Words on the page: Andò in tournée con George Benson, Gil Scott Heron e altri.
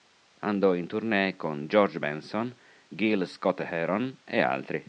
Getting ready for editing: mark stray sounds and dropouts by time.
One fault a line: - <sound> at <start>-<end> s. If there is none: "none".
none